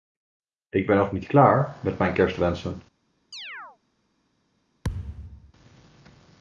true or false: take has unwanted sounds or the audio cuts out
true